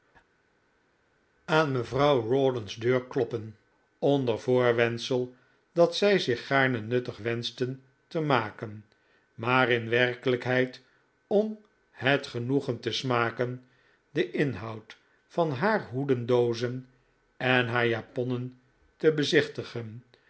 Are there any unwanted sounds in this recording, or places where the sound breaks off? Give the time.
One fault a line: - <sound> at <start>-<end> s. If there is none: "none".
none